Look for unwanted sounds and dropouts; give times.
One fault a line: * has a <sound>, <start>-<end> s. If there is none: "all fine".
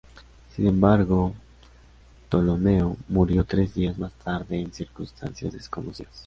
all fine